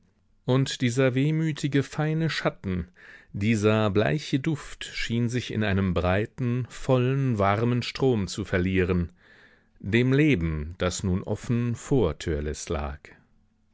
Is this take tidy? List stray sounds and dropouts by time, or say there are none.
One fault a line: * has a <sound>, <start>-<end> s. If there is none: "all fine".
all fine